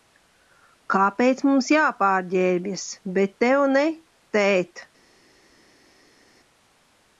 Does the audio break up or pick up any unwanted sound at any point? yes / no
no